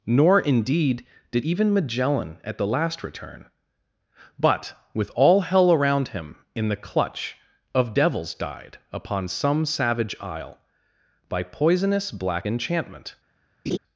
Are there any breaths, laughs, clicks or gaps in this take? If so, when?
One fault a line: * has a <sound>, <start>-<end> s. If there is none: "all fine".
* has a laugh, 13.7-13.8 s